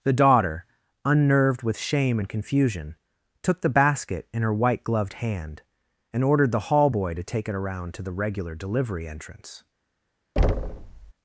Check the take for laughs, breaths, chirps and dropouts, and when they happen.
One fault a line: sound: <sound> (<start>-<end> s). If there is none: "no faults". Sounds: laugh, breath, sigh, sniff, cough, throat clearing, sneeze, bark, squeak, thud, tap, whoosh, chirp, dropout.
sound: thud (10.4-11.1 s)